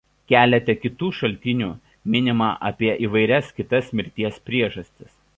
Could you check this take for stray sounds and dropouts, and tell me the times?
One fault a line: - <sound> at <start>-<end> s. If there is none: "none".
none